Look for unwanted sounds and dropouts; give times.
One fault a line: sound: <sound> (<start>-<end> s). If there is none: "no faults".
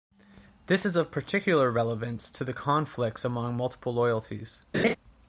sound: laugh (4.7-5.0 s)